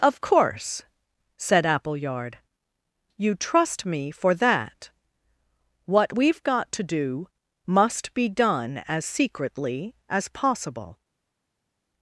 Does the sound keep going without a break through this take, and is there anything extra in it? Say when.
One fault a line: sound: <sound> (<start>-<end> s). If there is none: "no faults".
no faults